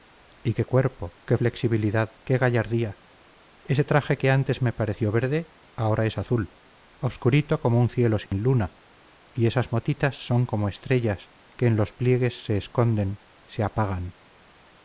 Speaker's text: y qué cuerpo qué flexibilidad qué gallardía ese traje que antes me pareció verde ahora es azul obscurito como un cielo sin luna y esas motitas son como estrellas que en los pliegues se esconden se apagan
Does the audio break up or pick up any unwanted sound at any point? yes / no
yes